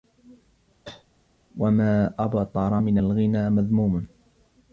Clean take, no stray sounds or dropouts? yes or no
no